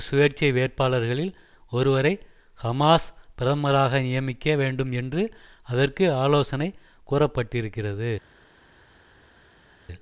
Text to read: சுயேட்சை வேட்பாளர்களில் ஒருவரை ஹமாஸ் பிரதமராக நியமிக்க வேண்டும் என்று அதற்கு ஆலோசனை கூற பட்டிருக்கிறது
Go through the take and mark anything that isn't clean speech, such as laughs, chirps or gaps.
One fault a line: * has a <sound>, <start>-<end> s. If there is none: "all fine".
all fine